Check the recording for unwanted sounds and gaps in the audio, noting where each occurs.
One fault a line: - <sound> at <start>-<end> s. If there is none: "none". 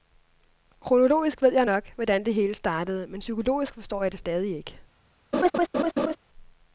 - laugh at 5.3-6.2 s